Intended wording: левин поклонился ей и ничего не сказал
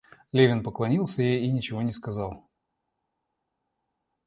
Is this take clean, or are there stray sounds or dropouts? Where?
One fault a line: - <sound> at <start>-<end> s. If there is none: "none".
none